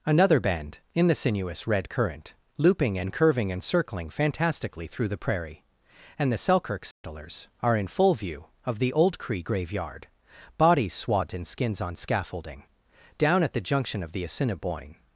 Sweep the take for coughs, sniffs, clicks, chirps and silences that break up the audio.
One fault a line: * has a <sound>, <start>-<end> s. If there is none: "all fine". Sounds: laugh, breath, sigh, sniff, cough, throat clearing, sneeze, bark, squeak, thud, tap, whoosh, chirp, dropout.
* has a dropout, 6.9-7.0 s